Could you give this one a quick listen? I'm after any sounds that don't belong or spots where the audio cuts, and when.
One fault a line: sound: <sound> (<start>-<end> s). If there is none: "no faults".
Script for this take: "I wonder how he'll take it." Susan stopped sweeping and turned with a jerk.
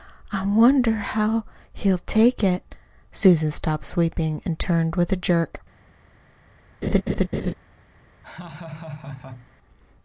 sound: laugh (6.8-7.5 s)
sound: laugh (8.2-9.5 s)